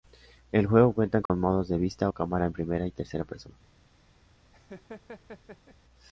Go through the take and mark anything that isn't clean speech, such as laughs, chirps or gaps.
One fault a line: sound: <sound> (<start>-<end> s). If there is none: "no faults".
sound: dropout (1.3-1.3 s)
sound: laugh (4.5-5.8 s)